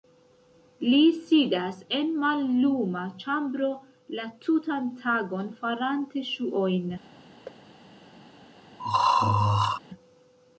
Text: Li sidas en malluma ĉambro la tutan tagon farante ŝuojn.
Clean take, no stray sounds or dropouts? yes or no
no